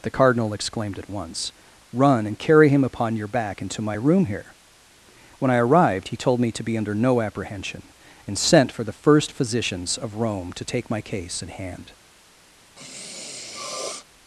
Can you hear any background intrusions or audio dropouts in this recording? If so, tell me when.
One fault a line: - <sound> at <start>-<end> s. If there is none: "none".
- sniff at 12.8-14.0 s